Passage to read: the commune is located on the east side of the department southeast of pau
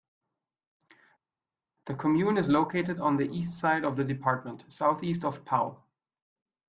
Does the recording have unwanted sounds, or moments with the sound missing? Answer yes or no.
no